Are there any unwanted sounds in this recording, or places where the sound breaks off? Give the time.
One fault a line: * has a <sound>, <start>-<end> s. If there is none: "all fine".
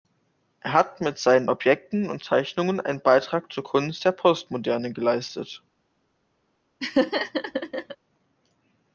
* has a laugh, 6.8-8.0 s